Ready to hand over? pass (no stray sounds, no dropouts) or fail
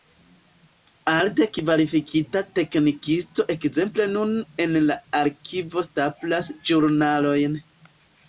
pass